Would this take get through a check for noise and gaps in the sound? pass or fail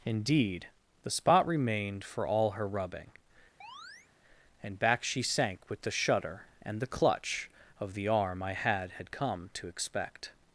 fail